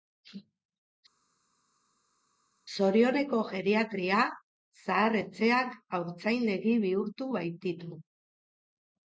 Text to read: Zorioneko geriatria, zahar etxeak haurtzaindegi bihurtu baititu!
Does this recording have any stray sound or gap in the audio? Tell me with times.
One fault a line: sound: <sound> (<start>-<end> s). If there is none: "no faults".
no faults